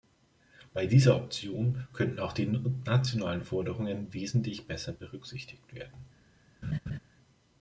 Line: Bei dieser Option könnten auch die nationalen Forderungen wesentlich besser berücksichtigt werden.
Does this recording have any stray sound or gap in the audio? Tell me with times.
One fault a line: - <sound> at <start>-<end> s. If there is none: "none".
- laugh at 6.6-7.0 s